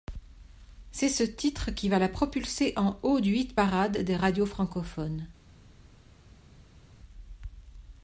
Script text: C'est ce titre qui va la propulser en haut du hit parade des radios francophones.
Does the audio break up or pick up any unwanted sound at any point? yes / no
no